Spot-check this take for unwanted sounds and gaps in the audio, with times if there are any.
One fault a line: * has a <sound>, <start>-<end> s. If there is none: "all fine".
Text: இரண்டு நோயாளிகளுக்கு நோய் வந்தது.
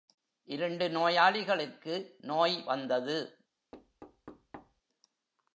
* has a thud, 3.7-4.8 s